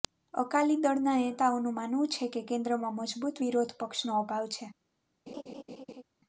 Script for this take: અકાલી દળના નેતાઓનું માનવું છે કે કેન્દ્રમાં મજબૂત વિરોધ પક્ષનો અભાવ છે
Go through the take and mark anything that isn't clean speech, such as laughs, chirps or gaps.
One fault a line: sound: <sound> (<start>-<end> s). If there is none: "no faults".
sound: laugh (5.3-6.0 s)